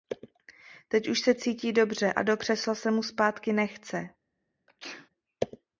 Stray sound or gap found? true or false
true